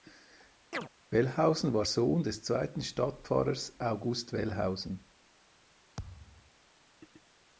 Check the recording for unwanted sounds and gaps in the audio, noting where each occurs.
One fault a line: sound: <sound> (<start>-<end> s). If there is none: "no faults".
sound: chirp (0.7-0.9 s)
sound: thud (6.0-6.5 s)